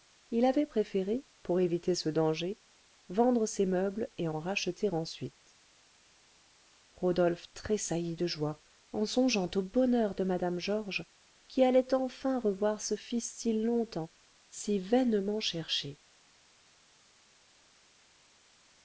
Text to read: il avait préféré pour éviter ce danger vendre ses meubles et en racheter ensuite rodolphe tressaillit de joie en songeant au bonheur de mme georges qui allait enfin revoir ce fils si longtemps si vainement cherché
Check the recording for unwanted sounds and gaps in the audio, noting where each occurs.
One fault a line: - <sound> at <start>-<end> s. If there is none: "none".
none